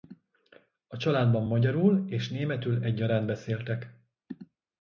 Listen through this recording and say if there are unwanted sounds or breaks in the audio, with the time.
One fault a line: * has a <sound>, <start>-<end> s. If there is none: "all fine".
all fine